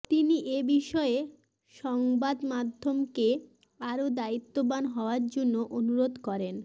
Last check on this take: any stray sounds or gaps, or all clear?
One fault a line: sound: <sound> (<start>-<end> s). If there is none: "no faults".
no faults